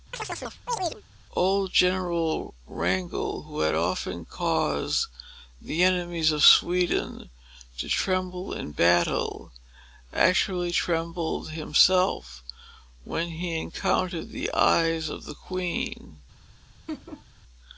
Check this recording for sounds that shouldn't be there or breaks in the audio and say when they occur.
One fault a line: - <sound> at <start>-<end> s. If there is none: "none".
- chirp at 0.1-1.0 s
- laugh at 16.9-17.3 s